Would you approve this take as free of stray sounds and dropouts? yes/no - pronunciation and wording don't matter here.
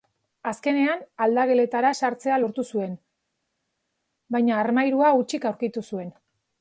yes